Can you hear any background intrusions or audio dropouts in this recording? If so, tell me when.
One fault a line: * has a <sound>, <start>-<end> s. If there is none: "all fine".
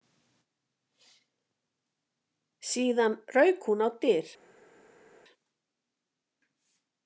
all fine